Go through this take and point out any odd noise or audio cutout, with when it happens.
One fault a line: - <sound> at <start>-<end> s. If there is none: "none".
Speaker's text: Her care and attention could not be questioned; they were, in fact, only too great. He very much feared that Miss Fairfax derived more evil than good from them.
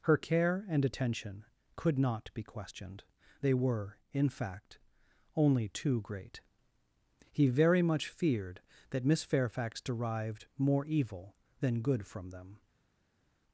none